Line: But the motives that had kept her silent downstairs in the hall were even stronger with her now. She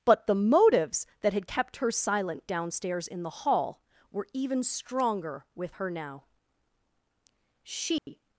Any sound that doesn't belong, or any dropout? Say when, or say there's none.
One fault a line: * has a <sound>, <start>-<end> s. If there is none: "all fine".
* has a dropout, 8.0-8.1 s